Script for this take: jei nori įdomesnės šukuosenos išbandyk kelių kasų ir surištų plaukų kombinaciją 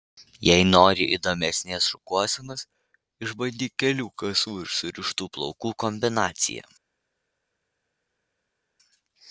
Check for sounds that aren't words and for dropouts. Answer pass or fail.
pass